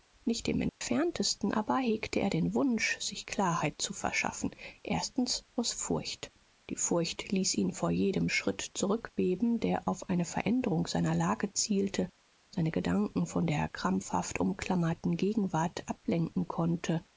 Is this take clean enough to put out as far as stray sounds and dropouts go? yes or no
no